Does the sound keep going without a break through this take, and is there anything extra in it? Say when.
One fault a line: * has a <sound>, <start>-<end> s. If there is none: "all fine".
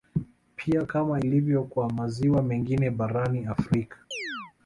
* has a chirp, 4.1-4.5 s